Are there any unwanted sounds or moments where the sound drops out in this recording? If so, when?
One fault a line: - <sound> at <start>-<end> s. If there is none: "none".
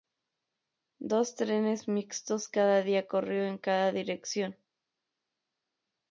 none